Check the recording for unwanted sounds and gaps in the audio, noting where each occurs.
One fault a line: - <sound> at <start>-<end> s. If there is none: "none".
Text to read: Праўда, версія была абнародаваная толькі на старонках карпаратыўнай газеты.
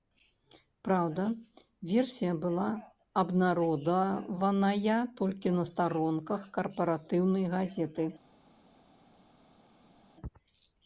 none